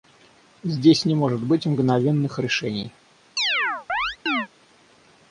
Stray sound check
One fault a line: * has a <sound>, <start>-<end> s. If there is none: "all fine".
* has a chirp, 3.4-4.5 s